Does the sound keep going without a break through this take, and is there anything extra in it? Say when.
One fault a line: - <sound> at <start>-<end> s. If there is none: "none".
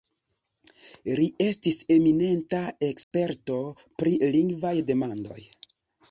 - dropout at 3.0-3.1 s